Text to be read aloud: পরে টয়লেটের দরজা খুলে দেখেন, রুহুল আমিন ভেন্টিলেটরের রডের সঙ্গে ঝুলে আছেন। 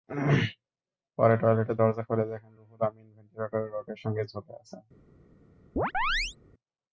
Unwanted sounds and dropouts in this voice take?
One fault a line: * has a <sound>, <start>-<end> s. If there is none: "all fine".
* has a chirp, 5.8-6.4 s